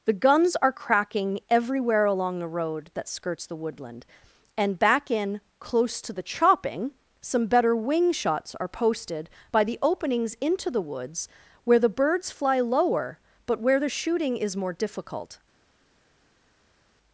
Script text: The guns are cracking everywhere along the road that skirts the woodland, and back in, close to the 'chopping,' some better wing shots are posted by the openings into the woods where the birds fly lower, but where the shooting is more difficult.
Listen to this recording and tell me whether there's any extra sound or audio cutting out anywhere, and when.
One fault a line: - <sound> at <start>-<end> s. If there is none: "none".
none